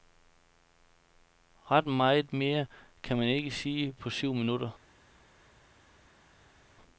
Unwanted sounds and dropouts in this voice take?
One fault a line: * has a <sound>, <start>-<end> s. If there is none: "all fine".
all fine